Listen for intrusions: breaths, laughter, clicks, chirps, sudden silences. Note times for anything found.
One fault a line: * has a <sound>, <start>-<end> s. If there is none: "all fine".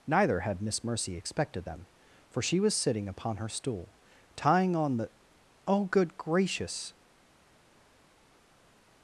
all fine